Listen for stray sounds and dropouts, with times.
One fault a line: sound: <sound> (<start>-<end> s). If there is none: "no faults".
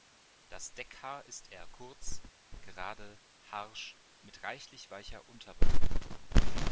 no faults